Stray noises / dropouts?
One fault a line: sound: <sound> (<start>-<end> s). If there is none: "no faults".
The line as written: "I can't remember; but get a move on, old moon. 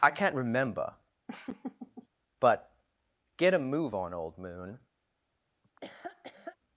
sound: laugh (1.3-2.1 s)
sound: laugh (5.6-6.6 s)